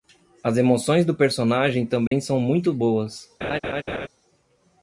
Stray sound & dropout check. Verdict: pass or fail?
fail